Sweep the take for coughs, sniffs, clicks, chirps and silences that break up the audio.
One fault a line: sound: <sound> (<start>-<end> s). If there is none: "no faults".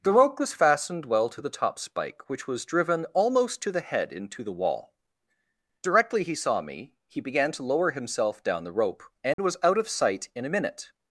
sound: dropout (9.3-9.4 s)